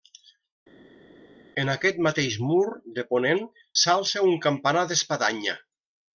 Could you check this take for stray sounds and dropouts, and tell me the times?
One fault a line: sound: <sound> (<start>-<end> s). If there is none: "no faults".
no faults